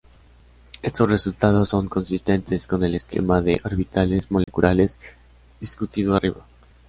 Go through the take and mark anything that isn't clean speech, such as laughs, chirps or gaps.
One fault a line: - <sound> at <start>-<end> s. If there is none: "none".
- dropout at 4.4-4.5 s